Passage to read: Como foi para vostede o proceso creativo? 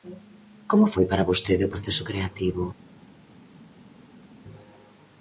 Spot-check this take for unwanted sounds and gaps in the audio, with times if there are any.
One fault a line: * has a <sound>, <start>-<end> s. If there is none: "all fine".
all fine